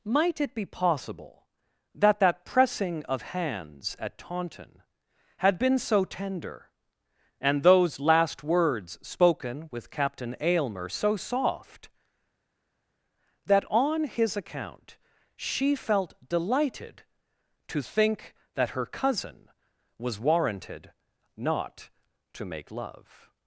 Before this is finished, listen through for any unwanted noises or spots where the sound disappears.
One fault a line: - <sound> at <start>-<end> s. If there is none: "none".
none